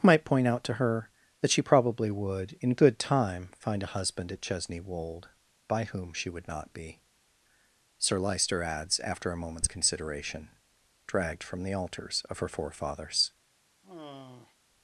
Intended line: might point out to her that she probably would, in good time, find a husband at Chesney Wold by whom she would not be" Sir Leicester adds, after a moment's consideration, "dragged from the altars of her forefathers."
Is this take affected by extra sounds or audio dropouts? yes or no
yes